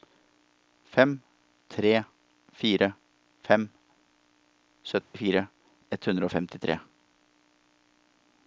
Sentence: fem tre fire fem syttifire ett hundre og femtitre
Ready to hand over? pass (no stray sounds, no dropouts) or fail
fail